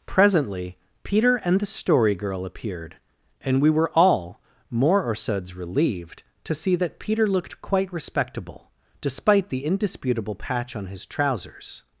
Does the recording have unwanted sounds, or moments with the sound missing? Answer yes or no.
no